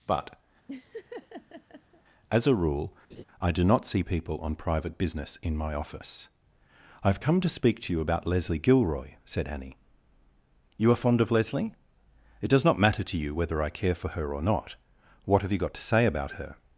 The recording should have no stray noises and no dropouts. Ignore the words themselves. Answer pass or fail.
fail